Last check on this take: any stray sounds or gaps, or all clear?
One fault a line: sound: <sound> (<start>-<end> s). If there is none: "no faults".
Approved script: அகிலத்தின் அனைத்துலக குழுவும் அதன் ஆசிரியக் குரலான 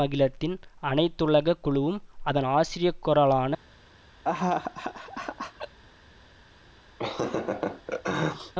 sound: laugh (4.2-5.8 s)
sound: laugh (7.0-8.5 s)